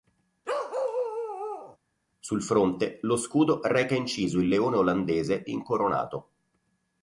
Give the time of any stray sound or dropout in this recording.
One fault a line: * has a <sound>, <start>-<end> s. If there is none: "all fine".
* has a bark, 0.4-1.8 s